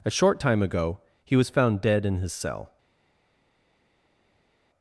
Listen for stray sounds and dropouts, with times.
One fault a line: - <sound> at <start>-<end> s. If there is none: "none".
none